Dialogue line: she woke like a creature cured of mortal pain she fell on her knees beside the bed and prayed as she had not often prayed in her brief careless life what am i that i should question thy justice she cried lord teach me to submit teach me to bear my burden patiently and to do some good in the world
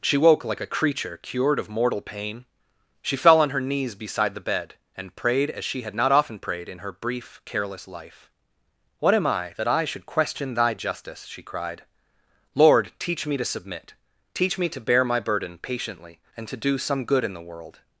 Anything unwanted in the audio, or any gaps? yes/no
no